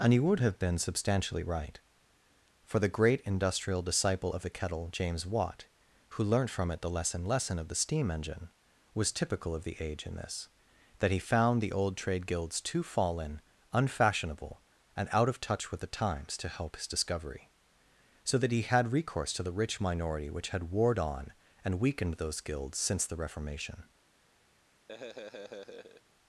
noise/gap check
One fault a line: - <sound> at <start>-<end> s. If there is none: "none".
- laugh at 24.9-26.0 s